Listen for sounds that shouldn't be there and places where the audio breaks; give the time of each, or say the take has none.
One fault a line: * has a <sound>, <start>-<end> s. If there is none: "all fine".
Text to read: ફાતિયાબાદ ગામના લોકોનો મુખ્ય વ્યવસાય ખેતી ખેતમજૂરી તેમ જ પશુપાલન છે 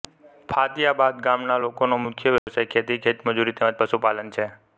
* has a dropout, 2.4-2.5 s